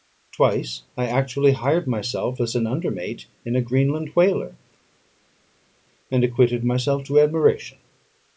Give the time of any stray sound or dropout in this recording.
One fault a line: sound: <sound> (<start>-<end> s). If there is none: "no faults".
no faults